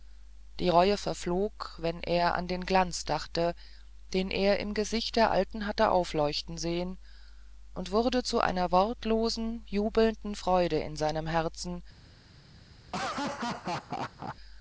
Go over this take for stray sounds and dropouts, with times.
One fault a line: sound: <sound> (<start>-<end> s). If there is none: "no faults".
sound: laugh (12.9-14.4 s)